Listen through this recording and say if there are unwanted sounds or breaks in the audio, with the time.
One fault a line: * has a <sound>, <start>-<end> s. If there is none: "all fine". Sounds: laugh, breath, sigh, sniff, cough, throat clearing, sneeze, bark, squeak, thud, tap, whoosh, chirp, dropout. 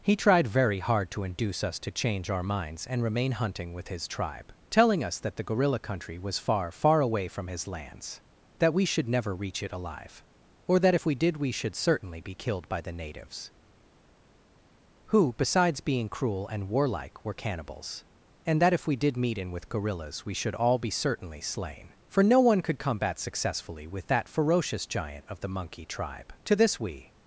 all fine